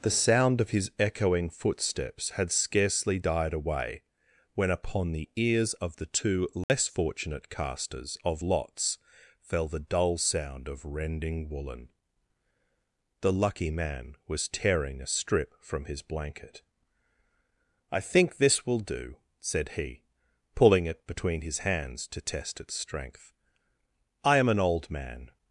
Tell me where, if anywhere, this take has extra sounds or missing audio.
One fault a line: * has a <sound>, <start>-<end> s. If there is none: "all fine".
* has a dropout, 6.6-6.7 s